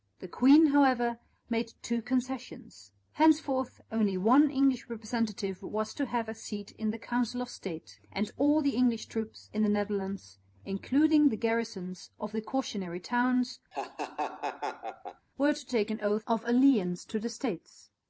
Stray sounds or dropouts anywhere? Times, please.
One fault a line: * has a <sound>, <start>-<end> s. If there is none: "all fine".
* has a laugh, 13.7-15.3 s